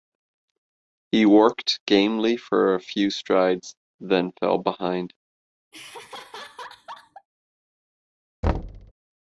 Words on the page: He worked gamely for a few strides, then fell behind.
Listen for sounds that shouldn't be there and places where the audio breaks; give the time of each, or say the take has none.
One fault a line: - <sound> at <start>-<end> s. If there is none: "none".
- laugh at 5.7-7.3 s
- thud at 8.4-8.9 s